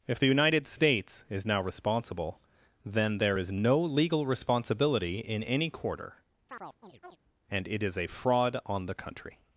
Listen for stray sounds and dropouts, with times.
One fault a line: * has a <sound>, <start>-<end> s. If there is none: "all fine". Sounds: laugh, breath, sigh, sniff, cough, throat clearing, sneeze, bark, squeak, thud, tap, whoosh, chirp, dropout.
* has a chirp, 6.5-7.2 s